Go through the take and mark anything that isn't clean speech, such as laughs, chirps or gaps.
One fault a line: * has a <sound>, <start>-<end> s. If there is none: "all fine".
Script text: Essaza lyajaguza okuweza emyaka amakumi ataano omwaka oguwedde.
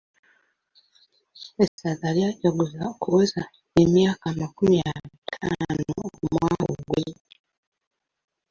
* has a dropout, 1.7-1.8 s